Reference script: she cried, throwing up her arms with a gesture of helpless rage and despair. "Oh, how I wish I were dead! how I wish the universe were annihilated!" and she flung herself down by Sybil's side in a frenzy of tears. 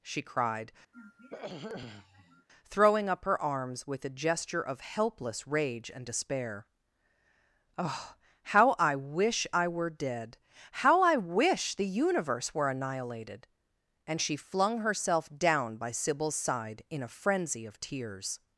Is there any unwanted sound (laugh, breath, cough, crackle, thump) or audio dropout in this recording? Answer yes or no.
yes